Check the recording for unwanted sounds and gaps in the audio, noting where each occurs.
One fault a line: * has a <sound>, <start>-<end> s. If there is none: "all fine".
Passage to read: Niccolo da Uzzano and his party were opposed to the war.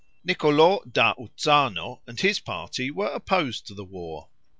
all fine